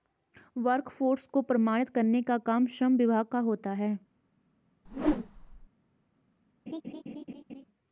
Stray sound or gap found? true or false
true